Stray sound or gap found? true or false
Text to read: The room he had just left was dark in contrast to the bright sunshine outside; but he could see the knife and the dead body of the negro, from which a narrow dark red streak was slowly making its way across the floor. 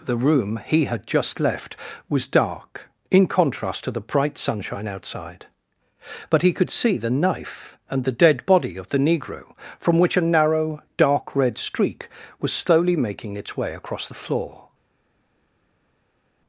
false